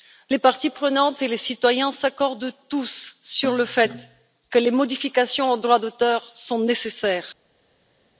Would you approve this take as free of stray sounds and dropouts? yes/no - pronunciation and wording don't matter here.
yes